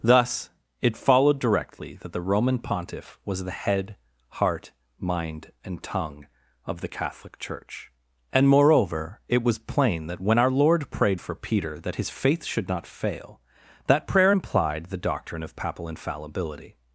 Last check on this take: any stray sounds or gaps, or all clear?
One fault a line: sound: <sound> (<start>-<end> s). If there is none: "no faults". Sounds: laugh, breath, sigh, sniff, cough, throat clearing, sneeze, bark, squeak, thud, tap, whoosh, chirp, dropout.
no faults